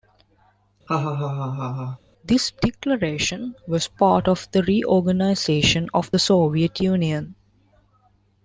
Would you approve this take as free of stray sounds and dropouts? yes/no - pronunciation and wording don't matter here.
no